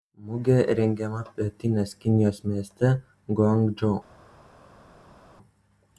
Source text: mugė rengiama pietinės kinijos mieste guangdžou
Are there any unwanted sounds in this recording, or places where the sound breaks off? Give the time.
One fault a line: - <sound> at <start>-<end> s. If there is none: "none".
none